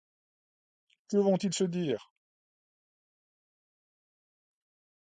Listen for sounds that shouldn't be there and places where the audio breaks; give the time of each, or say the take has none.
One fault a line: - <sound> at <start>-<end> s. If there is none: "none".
none